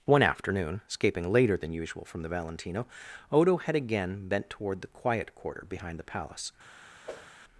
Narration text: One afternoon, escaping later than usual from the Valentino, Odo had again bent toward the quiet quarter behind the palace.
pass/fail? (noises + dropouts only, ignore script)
fail